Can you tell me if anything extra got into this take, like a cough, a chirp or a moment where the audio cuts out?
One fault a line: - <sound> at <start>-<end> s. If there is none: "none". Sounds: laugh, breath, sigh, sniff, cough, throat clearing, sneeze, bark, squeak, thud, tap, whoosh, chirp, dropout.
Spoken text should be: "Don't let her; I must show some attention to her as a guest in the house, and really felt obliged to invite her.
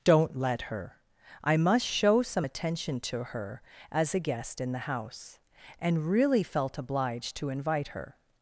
none